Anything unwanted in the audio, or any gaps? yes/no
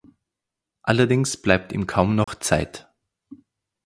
yes